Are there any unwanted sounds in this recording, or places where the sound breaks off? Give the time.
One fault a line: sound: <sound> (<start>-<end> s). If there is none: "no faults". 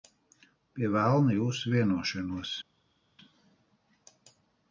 no faults